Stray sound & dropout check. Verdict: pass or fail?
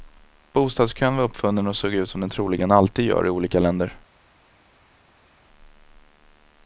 pass